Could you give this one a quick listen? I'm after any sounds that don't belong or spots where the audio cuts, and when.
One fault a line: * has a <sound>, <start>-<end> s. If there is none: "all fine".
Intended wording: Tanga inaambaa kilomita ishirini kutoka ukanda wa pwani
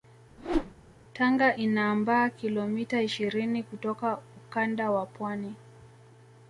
* has a whoosh, 0.4-0.7 s